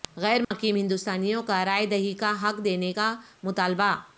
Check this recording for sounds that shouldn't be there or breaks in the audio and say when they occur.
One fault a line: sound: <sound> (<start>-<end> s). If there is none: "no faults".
sound: dropout (0.4-0.5 s)